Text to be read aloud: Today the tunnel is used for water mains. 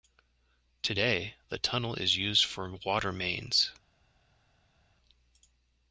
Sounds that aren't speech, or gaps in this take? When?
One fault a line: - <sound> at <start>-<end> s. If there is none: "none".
none